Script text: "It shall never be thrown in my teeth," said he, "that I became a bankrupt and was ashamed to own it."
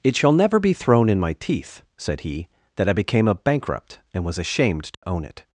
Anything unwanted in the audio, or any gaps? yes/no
yes